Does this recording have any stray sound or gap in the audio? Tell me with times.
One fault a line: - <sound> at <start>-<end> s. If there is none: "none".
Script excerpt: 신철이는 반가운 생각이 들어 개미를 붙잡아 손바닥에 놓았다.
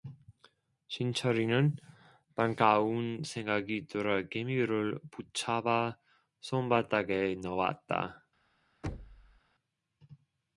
- thud at 8.8-9.4 s